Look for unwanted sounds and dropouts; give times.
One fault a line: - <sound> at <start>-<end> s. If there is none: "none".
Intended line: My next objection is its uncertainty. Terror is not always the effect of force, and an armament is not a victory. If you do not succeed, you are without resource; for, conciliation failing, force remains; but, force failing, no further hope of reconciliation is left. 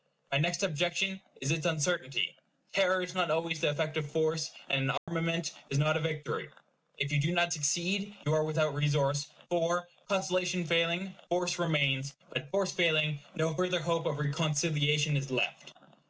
- dropout at 5.0-5.1 s